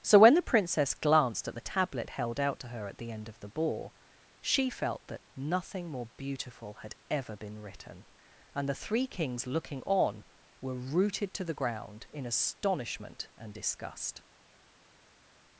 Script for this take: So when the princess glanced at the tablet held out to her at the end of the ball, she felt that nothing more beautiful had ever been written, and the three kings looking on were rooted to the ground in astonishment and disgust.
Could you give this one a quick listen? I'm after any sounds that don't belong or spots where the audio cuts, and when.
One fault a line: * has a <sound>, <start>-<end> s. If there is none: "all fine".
all fine